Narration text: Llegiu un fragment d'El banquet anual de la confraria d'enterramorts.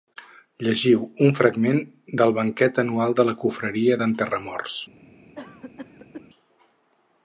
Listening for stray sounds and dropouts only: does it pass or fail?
fail